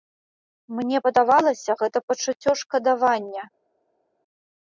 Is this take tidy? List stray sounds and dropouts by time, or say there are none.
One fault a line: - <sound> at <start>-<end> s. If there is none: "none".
none